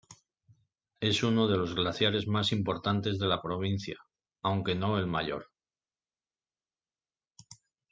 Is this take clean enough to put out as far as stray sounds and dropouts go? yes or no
yes